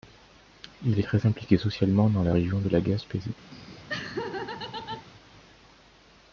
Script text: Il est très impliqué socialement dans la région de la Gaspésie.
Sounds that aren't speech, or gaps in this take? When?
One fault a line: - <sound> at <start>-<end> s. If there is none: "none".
- laugh at 3.5-5.1 s